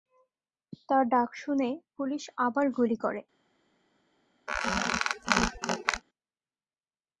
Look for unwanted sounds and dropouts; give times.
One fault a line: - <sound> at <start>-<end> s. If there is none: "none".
- squeak at 4.5-6.0 s